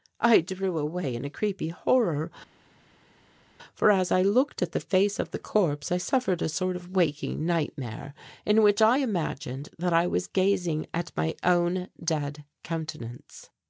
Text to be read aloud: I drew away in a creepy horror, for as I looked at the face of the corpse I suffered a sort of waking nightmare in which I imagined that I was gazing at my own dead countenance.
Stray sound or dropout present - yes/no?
no